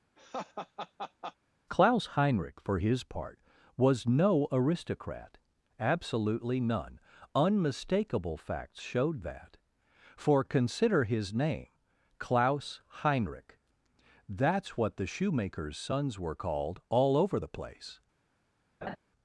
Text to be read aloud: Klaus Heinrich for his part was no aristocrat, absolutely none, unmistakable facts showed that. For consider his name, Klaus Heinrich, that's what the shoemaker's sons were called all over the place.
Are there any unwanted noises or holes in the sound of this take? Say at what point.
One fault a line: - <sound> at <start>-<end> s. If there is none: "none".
- laugh at 0.2-1.4 s
- laugh at 18.8-19.0 s